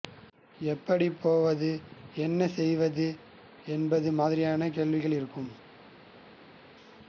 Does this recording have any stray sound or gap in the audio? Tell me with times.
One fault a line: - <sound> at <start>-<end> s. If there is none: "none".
none